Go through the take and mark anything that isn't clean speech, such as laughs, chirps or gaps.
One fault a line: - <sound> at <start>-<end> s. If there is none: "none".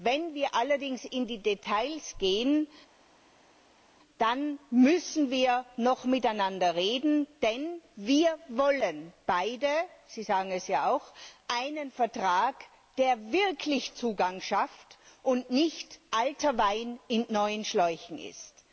none